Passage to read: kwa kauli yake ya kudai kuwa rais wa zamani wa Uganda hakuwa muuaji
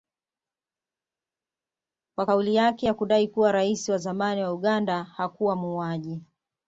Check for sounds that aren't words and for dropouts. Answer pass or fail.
pass